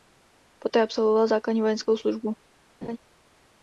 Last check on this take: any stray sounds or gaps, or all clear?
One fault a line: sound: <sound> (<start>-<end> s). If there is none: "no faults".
sound: laugh (2.8-3.0 s)